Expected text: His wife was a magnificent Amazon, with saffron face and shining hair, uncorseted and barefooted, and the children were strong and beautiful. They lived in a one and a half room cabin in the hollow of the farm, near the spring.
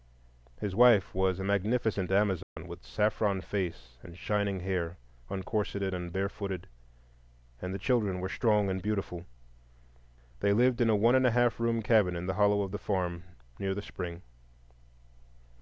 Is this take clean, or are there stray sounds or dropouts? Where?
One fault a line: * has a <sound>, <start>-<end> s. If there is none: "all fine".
* has a dropout, 2.4-2.6 s